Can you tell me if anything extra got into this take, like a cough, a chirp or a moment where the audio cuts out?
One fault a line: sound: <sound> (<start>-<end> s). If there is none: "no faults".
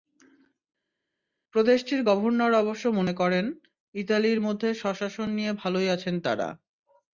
no faults